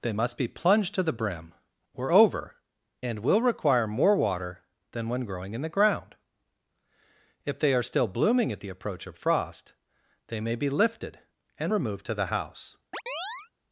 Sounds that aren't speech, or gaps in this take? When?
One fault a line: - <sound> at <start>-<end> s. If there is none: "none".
- chirp at 12.9-13.5 s